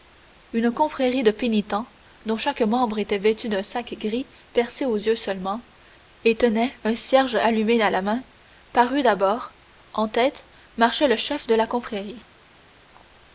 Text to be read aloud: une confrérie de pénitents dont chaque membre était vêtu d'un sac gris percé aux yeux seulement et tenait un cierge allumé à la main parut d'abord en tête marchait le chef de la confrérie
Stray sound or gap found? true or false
false